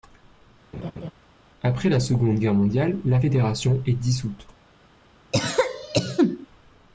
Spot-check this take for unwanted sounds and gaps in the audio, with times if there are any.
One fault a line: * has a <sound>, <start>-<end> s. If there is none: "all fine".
* has a laugh, 0.7-1.1 s
* has a cough, 5.3-6.5 s